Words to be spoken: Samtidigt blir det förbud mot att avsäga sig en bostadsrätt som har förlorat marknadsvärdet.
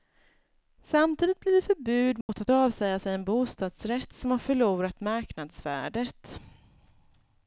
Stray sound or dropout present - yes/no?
yes